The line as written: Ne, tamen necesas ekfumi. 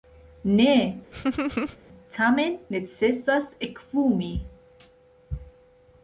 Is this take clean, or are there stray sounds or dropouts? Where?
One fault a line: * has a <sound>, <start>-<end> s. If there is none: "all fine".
* has a laugh, 1.1-1.8 s